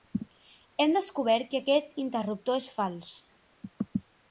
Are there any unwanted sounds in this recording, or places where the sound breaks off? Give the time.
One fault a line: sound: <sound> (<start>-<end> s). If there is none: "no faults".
no faults